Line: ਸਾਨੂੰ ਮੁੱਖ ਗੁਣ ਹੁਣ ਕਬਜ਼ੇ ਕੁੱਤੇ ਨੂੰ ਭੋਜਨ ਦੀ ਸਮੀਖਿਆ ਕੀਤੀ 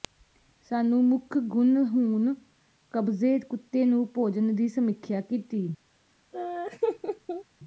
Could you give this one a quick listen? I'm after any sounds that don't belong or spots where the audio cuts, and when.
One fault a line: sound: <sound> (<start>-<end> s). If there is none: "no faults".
sound: laugh (6.3-7.4 s)